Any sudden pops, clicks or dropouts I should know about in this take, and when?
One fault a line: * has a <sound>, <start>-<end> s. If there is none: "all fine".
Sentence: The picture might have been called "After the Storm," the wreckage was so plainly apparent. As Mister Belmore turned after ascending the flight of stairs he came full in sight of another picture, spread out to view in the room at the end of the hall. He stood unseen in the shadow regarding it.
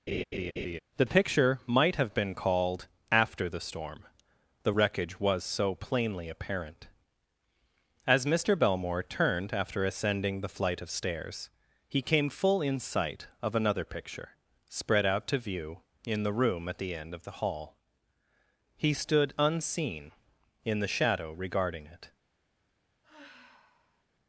* has a laugh, 0.1-0.8 s
* has a sigh, 23.0-24.0 s